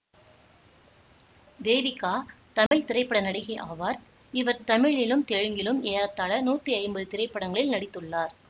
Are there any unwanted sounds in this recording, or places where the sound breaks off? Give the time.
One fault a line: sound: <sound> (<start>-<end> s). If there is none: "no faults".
sound: dropout (2.7-2.7 s)